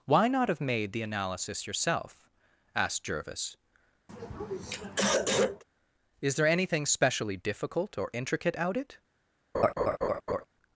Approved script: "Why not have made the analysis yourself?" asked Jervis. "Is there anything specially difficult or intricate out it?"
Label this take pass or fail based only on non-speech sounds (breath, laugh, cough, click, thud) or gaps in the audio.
fail